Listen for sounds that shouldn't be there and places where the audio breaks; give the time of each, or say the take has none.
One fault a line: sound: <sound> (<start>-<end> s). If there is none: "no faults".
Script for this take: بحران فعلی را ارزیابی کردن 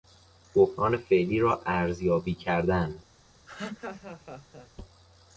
sound: laugh (3.5-4.7 s)